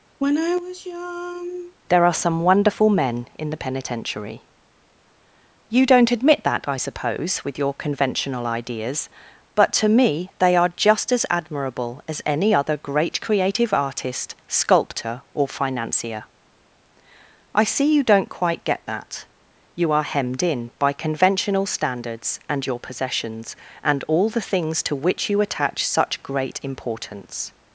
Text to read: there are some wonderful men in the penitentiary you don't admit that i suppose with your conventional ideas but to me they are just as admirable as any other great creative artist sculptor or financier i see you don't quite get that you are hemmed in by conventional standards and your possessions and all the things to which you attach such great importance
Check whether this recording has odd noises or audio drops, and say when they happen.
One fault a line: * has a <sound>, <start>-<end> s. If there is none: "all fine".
* has a sigh, 0.2-1.8 s